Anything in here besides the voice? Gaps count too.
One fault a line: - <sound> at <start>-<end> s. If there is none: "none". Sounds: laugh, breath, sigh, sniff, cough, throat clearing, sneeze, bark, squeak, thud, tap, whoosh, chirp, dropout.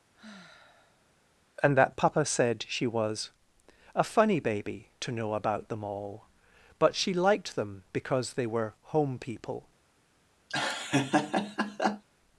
- sigh at 0.1-1.1 s
- laugh at 10.5-12.0 s